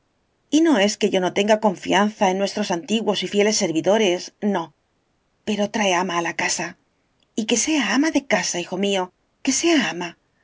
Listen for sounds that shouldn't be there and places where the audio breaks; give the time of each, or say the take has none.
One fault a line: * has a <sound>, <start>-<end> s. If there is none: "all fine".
all fine